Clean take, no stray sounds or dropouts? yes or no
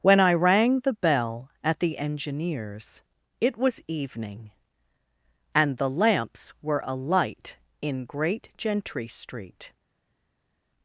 yes